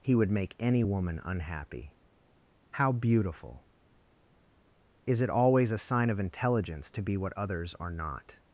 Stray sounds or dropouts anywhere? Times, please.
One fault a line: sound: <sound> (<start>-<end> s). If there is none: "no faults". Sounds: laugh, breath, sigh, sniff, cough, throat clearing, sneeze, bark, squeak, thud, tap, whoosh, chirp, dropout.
no faults